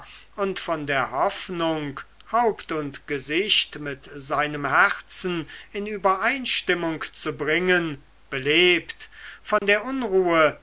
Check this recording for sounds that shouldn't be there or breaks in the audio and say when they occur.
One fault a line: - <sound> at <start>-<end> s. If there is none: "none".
- dropout at 9.6-9.6 s